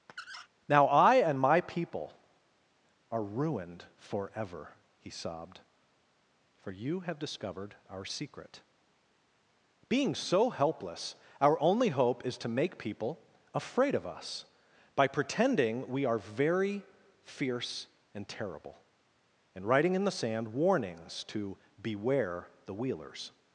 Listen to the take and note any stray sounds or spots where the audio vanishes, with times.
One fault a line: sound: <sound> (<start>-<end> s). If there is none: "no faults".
sound: squeak (0.1-0.5 s)